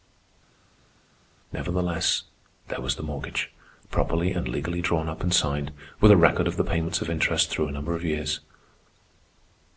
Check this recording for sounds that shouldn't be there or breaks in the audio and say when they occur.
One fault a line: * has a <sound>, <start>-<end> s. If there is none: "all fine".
all fine